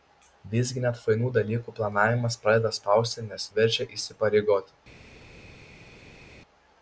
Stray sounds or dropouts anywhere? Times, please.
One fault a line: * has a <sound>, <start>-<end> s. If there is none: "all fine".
all fine